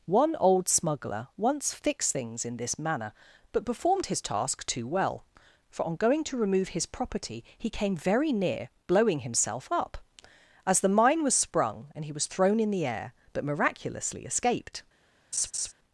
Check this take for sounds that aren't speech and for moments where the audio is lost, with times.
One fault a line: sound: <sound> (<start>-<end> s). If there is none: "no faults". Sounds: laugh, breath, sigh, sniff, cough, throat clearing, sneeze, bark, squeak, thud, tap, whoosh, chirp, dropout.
sound: laugh (15.3-15.7 s)